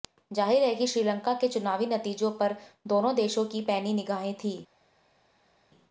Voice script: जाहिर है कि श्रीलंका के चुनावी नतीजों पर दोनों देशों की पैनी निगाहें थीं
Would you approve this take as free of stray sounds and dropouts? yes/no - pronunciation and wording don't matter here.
yes